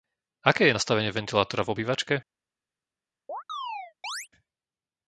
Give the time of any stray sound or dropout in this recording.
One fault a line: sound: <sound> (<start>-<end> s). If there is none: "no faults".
sound: chirp (3.3-4.3 s)